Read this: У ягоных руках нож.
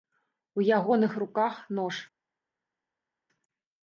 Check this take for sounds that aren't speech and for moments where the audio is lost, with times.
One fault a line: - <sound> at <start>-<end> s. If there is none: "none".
none